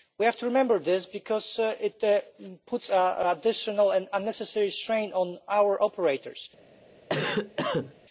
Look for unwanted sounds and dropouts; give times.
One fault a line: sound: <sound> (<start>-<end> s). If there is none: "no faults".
sound: cough (7.1-7.9 s)